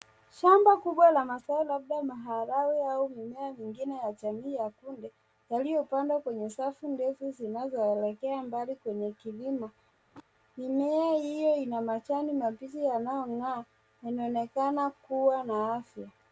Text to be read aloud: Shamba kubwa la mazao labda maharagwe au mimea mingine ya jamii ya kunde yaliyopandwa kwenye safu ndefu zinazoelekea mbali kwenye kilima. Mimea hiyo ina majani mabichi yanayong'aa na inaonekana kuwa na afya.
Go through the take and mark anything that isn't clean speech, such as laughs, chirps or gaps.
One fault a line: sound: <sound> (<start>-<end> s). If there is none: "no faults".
sound: throat clearing (9.9-10.2 s)